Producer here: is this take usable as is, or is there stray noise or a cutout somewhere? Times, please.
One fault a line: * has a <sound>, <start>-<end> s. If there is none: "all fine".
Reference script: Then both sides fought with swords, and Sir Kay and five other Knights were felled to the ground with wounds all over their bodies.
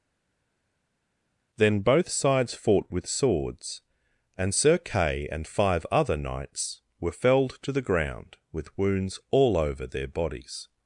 all fine